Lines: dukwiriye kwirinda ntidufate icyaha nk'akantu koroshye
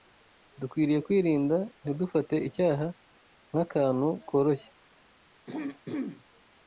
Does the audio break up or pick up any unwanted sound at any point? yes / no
yes